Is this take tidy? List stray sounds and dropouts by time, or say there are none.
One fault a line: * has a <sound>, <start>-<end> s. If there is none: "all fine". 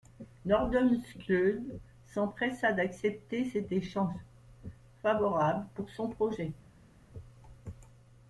all fine